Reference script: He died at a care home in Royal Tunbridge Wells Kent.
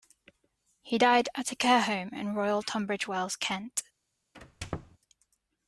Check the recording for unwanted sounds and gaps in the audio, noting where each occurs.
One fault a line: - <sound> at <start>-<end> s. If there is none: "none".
- squeak at 4.3-5.0 s